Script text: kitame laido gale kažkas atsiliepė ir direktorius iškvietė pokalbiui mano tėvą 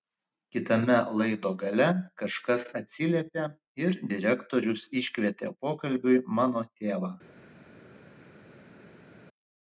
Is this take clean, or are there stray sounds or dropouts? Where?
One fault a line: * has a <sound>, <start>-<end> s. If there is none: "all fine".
all fine